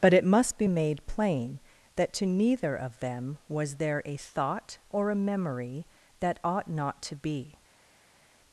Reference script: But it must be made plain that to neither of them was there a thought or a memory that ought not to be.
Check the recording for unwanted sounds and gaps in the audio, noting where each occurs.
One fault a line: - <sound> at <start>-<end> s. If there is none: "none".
none